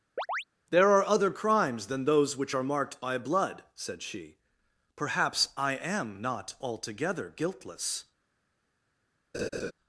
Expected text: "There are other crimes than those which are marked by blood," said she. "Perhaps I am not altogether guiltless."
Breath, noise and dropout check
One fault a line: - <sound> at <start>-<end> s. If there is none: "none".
- chirp at 0.2-0.4 s
- laugh at 9.3-9.7 s